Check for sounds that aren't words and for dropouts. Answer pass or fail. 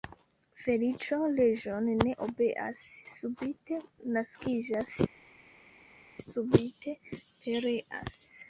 pass